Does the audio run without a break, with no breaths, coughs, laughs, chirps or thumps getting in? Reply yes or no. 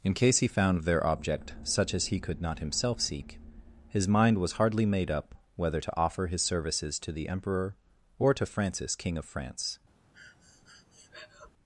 no